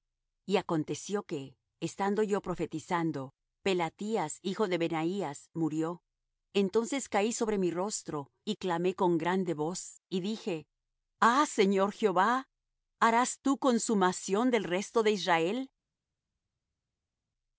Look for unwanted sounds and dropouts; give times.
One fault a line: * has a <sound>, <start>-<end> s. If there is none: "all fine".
all fine